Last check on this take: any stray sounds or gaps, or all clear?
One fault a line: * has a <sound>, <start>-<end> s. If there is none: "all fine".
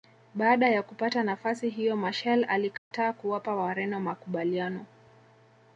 * has a dropout, 2.8-2.9 s